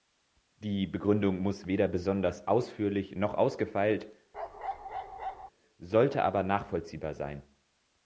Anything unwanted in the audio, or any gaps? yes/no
yes